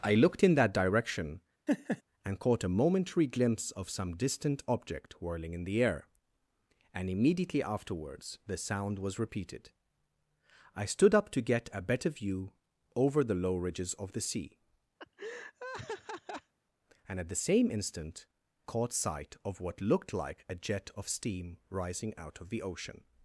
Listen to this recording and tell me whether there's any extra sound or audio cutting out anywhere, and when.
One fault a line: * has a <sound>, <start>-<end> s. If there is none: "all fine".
* has a laugh, 1.7-2.0 s
* has a laugh, 15.0-16.5 s